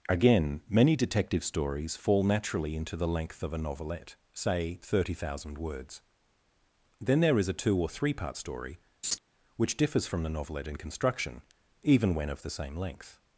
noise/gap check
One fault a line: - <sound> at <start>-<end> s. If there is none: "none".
- laugh at 9.0-9.2 s